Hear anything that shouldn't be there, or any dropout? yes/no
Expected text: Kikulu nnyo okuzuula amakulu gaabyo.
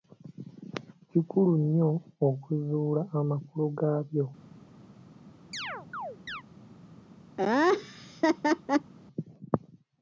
yes